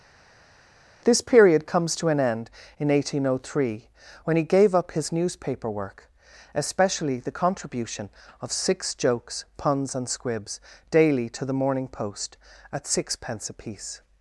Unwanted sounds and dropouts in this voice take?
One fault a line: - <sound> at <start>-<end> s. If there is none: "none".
none